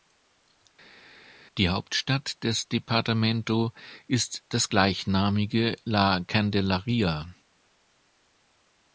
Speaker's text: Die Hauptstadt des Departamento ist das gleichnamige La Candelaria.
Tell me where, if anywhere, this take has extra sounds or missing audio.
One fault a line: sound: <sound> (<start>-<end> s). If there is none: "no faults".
no faults